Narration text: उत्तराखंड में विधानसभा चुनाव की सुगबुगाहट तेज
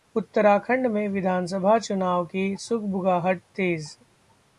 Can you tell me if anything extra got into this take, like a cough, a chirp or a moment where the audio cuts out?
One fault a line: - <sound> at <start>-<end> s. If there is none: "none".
none